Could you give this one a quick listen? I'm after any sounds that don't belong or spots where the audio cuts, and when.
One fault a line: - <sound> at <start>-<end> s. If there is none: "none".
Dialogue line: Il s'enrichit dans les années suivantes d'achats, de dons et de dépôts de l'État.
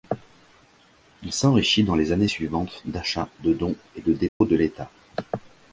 - dropout at 4.3-4.4 s